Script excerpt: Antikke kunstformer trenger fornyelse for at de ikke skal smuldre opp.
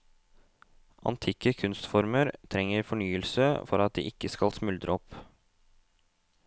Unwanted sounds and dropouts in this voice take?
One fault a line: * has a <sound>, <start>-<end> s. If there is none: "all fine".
all fine